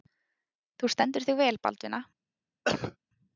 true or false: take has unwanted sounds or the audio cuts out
true